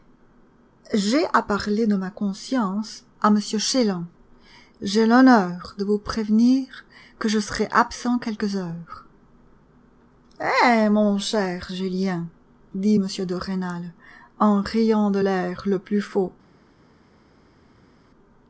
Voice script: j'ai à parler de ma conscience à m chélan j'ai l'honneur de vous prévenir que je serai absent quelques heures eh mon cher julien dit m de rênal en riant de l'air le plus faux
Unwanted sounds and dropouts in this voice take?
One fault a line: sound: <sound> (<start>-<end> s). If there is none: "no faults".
no faults